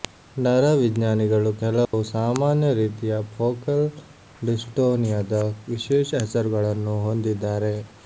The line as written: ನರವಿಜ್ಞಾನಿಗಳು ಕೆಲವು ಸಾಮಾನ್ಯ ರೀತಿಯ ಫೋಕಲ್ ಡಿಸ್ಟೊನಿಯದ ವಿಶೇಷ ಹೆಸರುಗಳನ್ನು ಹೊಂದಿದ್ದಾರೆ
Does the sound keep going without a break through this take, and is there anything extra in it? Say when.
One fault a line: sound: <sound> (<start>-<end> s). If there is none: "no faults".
sound: dropout (1.8-1.9 s)